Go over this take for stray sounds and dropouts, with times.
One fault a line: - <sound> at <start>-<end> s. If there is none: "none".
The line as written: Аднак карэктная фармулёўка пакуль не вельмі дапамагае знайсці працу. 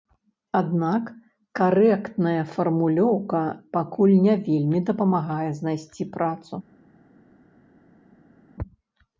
none